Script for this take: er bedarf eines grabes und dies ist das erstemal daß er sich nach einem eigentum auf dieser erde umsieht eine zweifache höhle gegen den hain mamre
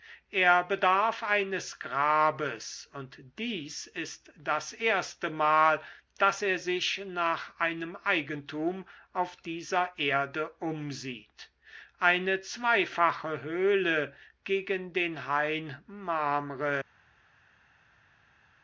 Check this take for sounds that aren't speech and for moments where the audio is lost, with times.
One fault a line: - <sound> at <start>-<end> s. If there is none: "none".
none